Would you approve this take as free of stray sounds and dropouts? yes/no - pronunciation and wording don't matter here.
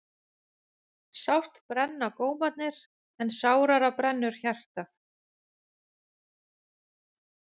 yes